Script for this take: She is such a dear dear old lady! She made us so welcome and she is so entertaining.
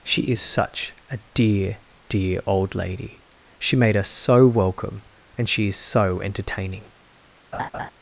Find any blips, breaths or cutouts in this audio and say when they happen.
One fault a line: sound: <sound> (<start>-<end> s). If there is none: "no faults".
sound: laugh (7.5-7.9 s)